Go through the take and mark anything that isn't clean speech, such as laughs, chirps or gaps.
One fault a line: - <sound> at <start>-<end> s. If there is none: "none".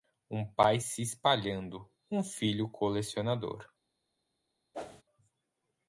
- whoosh at 4.7-5.0 s